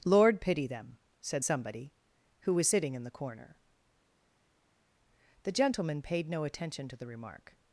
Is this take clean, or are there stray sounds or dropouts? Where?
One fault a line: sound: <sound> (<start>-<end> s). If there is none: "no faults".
no faults